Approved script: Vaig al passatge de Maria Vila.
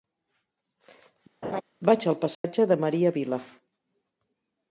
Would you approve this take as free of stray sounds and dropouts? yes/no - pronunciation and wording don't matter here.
no